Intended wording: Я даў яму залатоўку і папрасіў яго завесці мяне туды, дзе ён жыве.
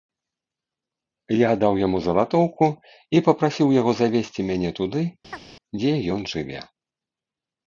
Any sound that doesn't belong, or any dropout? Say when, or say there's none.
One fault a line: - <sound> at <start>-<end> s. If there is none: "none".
- chirp at 5.3-5.5 s